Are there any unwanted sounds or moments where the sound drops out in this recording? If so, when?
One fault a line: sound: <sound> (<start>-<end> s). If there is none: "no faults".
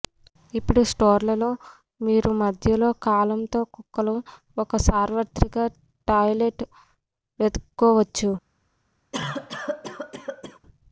sound: cough (9.1-10.6 s)